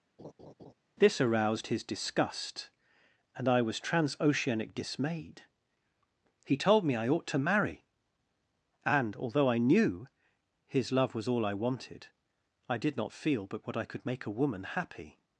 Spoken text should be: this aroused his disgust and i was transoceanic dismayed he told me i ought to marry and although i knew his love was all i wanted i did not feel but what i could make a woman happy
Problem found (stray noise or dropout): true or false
true